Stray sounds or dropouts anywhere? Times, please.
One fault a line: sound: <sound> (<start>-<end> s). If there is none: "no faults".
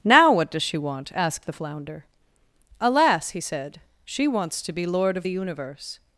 no faults